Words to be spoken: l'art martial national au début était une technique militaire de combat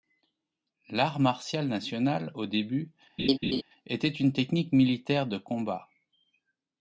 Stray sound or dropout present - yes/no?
yes